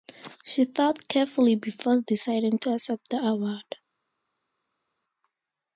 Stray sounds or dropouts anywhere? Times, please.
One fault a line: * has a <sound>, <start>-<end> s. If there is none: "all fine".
all fine